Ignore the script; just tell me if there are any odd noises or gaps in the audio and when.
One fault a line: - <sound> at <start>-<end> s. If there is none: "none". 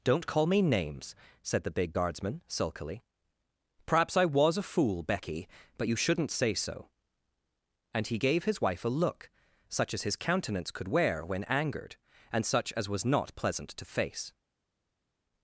none